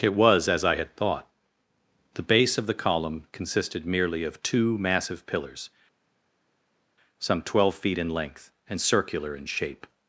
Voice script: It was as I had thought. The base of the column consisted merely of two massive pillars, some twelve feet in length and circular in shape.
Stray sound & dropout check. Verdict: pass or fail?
pass